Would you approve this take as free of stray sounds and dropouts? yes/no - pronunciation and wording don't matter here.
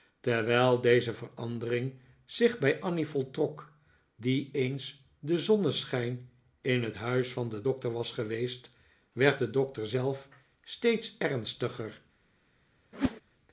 no